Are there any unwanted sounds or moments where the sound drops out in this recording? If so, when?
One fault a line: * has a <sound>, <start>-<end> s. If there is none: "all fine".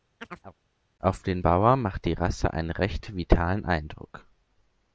* has a chirp, 0.2-0.6 s